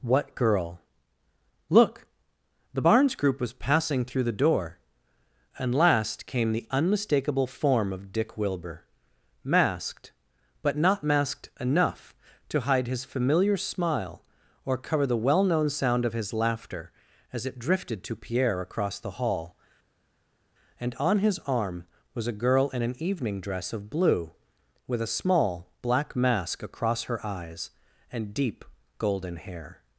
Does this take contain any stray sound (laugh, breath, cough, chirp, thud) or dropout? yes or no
no